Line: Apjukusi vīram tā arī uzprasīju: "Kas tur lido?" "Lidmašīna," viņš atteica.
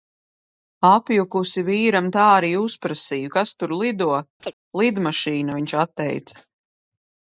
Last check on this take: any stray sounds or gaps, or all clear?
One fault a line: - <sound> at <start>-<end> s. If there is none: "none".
- chirp at 4.4-4.5 s